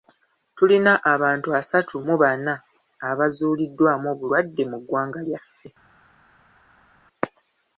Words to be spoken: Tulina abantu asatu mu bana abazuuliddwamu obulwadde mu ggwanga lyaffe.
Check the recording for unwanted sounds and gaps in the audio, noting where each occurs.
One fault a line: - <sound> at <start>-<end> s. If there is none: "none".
none